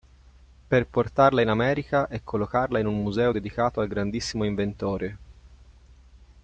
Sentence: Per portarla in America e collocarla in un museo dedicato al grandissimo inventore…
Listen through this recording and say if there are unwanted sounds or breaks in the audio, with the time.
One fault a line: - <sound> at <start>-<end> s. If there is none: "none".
none